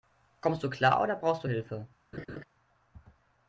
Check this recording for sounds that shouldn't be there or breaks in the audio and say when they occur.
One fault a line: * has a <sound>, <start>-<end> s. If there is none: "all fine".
* has a laugh, 2.1-2.4 s